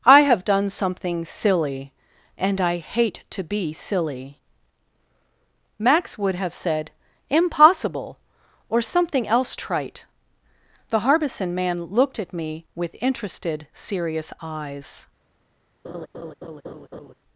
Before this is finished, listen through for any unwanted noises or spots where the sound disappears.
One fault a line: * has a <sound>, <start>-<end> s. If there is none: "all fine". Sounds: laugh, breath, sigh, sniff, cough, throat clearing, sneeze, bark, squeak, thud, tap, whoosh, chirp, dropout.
* has a laugh, 15.8-17.1 s